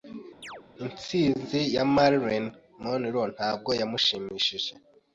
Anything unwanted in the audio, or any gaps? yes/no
yes